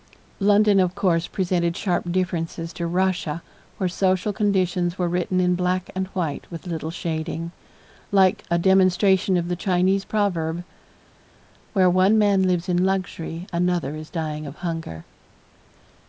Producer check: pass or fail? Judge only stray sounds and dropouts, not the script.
pass